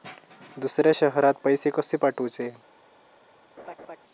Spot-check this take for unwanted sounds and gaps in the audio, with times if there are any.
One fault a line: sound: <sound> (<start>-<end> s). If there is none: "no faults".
sound: laugh (3.6-4.0 s)